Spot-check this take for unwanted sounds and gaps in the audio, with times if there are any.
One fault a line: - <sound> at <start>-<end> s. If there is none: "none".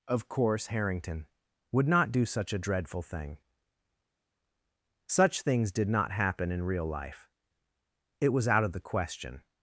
none